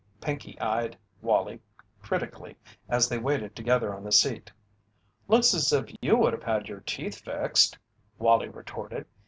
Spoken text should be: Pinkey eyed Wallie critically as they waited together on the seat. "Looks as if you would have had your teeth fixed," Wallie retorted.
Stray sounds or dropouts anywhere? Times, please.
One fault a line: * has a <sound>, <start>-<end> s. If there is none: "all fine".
* has a dropout, 6.0-6.0 s